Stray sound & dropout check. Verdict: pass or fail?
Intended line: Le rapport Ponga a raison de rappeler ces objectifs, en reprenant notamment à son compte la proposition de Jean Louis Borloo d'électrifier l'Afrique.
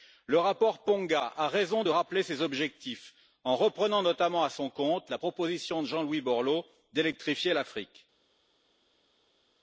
pass